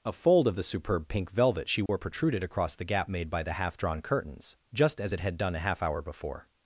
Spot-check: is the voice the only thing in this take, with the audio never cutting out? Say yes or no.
no